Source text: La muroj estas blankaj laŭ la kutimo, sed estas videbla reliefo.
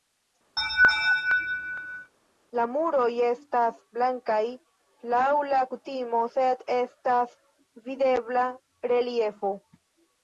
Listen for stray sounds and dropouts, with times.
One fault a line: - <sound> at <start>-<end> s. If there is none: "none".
- laugh at 0.6-2.1 s